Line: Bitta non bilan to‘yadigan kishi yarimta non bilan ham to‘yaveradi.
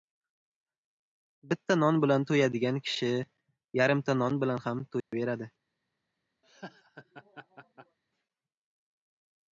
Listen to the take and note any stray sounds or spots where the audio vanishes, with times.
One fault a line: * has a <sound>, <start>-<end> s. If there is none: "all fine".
* has a dropout, 5.0-5.1 s
* has a laugh, 6.4-8.0 s